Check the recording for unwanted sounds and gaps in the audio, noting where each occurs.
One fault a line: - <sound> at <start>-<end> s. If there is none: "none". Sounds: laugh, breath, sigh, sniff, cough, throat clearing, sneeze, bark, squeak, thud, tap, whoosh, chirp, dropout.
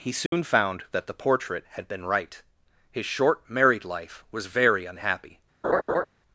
- dropout at 0.3-0.3 s
- laugh at 5.6-6.1 s